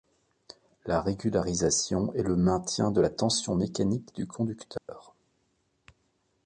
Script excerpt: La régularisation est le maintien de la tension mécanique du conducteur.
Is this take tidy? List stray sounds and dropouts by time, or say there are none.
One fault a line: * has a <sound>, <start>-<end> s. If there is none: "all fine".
* has a dropout, 4.8-4.9 s